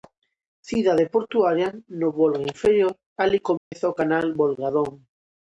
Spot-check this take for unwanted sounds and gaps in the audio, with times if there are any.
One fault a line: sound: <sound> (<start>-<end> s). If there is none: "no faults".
sound: dropout (3.6-3.7 s)